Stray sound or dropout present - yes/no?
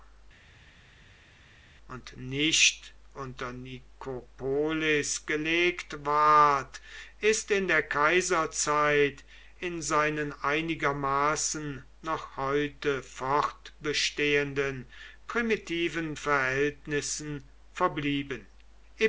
no